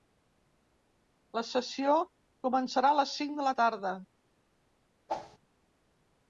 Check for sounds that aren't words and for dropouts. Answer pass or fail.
fail